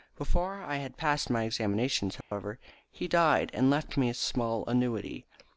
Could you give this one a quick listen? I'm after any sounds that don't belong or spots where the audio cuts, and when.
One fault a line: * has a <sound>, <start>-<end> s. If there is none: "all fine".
* has a dropout, 2.2-2.3 s